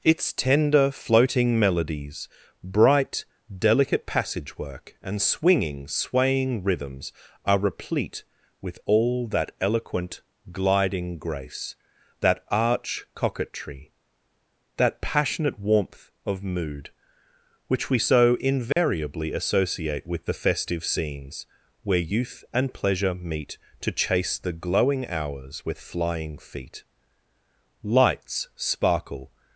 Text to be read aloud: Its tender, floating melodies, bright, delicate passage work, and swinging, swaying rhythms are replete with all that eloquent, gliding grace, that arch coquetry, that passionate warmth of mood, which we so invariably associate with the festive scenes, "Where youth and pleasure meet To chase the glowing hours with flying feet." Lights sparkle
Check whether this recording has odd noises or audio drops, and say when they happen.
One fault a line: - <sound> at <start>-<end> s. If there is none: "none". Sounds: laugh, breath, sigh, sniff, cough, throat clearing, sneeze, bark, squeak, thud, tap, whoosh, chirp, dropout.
- dropout at 18.7-18.8 s